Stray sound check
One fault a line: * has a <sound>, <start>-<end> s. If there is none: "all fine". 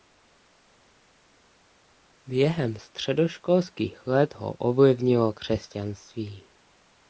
all fine